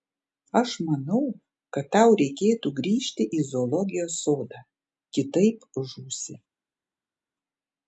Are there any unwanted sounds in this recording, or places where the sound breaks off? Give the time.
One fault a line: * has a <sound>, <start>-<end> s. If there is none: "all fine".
all fine